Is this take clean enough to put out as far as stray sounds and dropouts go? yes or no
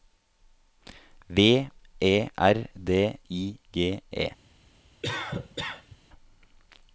no